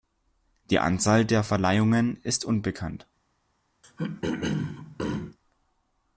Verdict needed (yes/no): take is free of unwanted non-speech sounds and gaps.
no